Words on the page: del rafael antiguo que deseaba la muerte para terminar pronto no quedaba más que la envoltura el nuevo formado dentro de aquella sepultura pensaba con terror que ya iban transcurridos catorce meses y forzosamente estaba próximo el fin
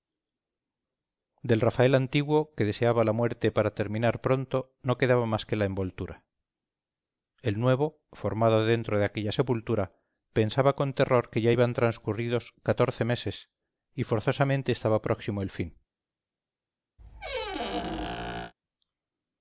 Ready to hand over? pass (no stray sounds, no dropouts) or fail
fail